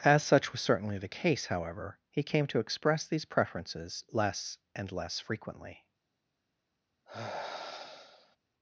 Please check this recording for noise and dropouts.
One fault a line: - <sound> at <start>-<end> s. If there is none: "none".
- sigh at 7.1-8.4 s